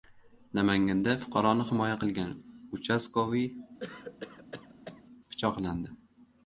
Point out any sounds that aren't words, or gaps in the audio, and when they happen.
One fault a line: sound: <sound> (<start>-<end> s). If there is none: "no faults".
sound: cough (3.8-5.0 s)